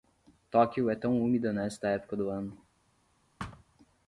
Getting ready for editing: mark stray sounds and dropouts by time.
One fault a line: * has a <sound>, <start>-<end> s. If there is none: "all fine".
* has a thud, 3.4-3.6 s